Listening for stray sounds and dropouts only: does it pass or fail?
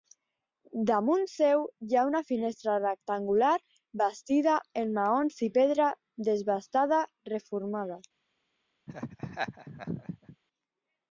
fail